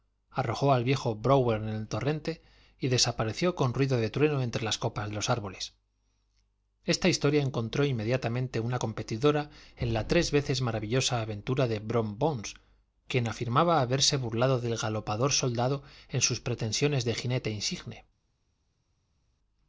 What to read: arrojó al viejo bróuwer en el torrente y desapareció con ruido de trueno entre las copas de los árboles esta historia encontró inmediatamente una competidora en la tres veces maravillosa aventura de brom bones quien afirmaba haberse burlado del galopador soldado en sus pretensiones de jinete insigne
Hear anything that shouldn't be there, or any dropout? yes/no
no